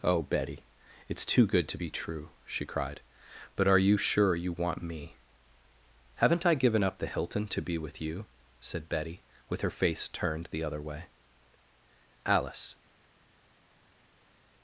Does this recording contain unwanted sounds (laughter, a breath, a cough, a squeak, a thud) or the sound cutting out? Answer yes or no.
no